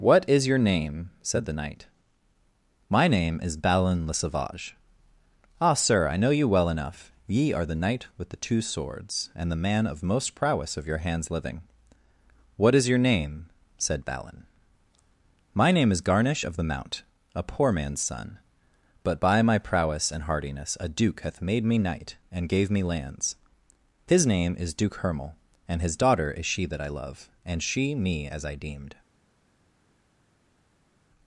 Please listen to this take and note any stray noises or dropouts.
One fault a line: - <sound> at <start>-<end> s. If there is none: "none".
none